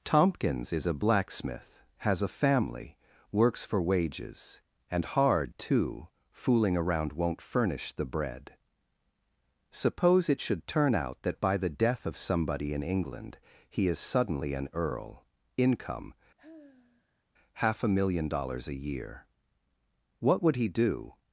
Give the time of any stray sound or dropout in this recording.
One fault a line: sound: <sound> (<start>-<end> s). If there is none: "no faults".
sound: sigh (16.4-17.2 s)